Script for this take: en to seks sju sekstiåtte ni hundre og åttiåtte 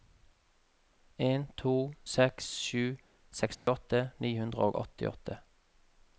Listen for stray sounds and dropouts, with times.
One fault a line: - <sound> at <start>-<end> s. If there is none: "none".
- dropout at 3.6-3.7 s